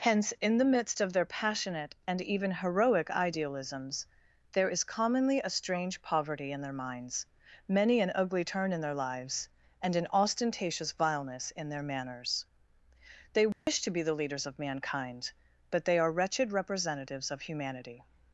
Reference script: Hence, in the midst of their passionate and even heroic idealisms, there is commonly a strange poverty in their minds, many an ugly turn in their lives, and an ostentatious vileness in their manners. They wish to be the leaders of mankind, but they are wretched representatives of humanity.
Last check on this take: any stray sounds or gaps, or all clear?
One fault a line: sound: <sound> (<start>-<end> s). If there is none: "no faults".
sound: dropout (13.5-13.7 s)